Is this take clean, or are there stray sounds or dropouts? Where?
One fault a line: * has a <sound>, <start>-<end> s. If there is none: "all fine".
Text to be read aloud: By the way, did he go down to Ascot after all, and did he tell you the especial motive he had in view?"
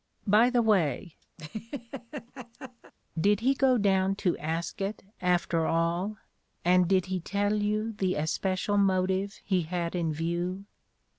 * has a laugh, 1.4-2.9 s